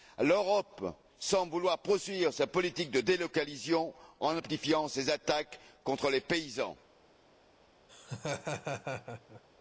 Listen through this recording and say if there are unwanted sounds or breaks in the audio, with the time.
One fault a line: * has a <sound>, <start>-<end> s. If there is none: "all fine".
* has a laugh, 7.9-9.4 s